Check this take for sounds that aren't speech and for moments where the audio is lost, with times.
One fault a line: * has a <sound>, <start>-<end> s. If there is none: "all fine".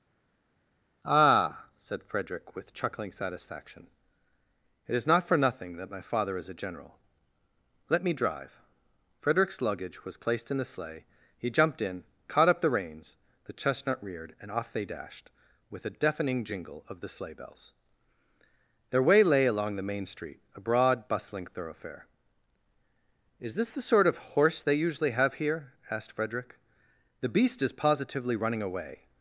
all fine